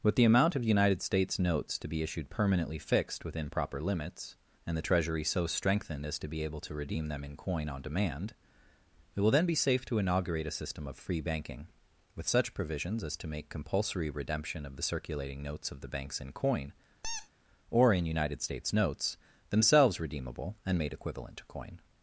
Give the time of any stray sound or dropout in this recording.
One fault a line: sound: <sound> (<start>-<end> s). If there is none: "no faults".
sound: squeak (17.0-17.3 s)